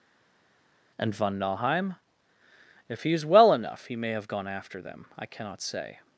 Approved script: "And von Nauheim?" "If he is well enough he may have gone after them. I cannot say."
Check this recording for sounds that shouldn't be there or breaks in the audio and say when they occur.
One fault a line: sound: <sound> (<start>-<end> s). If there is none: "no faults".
no faults